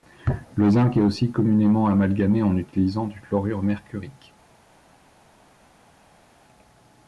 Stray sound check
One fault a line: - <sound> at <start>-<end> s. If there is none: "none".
none